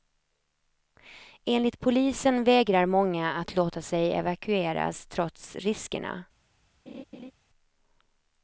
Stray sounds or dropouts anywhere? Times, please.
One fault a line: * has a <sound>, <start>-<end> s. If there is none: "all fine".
* has a laugh, 6.9-7.3 s